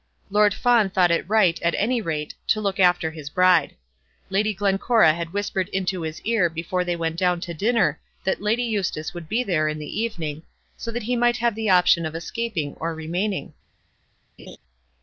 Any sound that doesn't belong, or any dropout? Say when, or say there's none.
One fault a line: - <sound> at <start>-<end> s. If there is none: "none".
- laugh at 14.4-14.6 s